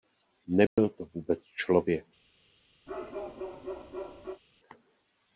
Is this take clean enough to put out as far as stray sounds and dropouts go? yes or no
no